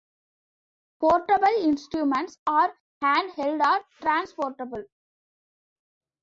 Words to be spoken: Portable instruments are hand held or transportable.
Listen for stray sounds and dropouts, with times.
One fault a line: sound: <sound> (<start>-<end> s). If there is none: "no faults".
no faults